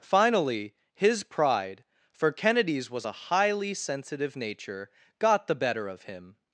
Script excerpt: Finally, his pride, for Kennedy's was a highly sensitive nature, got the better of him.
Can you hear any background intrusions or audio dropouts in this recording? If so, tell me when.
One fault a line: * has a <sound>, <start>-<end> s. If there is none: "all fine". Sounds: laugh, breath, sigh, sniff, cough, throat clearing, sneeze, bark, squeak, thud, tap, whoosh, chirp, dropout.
all fine